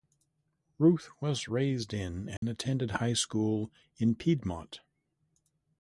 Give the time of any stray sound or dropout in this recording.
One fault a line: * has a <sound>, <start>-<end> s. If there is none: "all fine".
* has a dropout, 2.4-2.4 s